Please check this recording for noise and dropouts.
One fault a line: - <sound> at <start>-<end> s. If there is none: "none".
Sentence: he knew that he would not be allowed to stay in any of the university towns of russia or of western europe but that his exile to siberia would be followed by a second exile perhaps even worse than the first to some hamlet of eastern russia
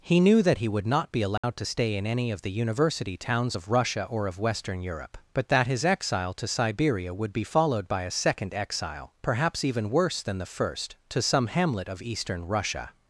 - dropout at 1.4-1.4 s